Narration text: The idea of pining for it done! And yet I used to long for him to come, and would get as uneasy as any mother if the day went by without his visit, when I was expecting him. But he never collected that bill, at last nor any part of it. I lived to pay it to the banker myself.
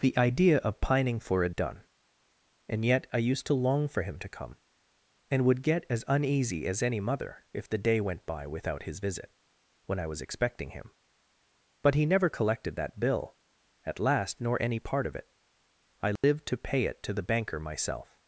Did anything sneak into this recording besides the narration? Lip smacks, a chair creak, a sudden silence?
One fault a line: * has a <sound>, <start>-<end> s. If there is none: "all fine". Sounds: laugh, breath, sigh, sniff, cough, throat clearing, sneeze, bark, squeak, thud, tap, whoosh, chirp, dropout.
* has a dropout, 16.2-16.2 s